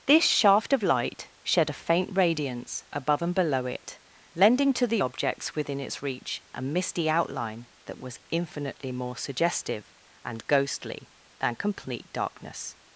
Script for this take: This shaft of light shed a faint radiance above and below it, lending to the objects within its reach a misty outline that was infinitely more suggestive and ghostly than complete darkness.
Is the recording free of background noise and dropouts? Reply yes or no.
yes